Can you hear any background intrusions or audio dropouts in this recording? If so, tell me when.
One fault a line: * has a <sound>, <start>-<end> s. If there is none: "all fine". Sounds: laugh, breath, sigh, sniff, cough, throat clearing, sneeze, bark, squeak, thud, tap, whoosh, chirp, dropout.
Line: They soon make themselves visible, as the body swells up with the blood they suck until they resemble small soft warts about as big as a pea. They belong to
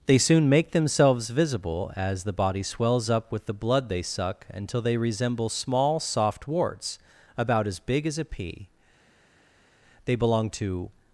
all fine